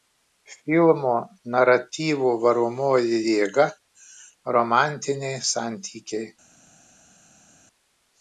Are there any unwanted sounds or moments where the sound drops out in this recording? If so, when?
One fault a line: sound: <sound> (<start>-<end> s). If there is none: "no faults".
no faults